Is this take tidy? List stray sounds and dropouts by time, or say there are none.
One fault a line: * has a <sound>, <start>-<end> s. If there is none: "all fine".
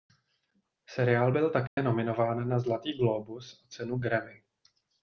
* has a dropout, 1.7-1.8 s